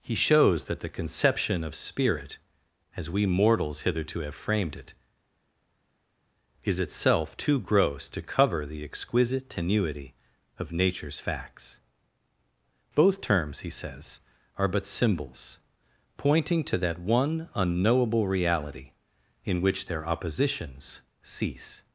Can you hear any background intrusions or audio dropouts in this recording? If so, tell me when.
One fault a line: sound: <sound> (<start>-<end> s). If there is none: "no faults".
no faults